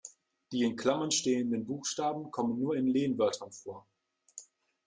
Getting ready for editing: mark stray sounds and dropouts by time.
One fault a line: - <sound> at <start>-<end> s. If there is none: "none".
none